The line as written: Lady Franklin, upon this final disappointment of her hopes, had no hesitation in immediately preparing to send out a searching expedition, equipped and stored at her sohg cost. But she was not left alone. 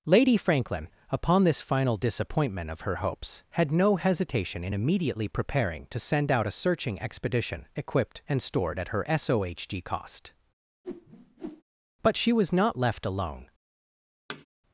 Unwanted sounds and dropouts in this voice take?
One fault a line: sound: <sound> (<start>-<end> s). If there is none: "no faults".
sound: whoosh (10.8-11.6 s)
sound: thud (14.3-14.5 s)